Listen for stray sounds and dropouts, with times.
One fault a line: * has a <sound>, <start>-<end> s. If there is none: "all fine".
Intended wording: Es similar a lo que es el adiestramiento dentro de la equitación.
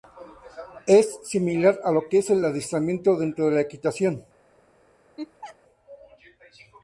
* has a laugh, 5.2-5.6 s